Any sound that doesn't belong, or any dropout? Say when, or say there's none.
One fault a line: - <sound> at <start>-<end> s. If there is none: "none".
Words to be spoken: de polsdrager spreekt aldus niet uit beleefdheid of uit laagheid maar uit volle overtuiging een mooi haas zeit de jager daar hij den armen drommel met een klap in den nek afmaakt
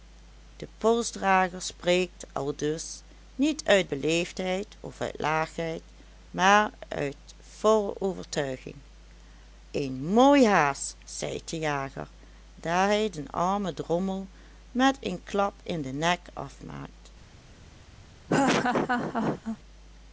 - laugh at 18.3-19.6 s